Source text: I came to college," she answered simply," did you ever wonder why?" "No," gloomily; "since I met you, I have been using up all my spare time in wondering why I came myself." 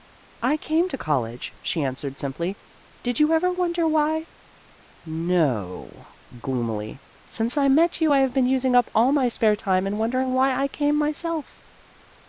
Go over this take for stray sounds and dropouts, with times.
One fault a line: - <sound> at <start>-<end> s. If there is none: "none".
none